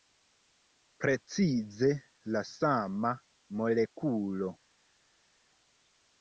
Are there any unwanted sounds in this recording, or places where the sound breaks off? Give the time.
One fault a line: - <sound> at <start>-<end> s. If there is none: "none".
none